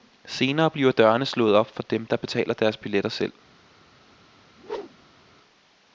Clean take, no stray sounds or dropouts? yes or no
no